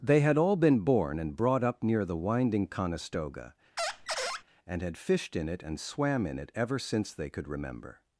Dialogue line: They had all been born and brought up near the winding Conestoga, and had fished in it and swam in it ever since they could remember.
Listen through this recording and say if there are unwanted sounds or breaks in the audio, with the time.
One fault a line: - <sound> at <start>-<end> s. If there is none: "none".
- squeak at 3.8-4.4 s